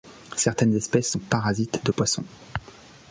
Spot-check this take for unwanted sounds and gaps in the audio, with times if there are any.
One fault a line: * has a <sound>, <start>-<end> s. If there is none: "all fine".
* has a dropout, 1.9-2.0 s